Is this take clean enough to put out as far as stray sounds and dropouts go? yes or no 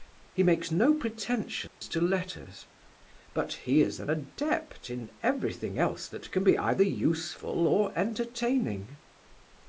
no